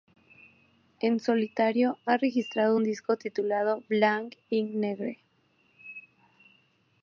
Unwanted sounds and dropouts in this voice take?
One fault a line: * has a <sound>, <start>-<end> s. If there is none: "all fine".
all fine